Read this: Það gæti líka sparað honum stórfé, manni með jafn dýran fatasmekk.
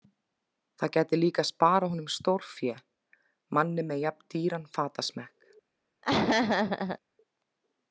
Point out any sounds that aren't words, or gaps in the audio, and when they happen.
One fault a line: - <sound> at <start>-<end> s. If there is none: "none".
- laugh at 6.0-7.0 s